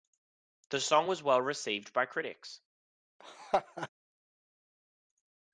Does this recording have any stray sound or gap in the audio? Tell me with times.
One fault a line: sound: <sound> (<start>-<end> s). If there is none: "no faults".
sound: laugh (3.2-3.9 s)